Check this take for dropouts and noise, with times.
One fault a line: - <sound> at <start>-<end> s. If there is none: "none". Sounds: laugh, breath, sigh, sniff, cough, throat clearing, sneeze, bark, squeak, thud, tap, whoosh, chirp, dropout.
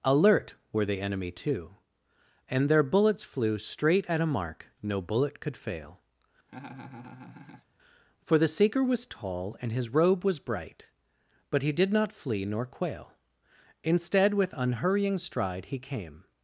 - laugh at 6.5-7.7 s